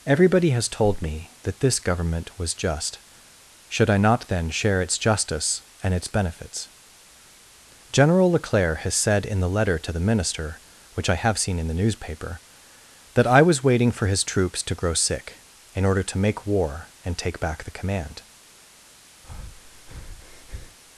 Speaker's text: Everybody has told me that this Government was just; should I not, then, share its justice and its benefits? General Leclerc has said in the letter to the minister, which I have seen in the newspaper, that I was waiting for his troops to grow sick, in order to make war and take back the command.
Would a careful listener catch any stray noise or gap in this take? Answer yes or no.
yes